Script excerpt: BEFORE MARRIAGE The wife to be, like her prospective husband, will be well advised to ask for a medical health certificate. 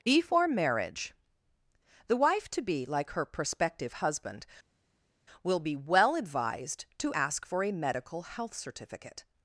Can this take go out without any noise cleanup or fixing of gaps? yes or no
yes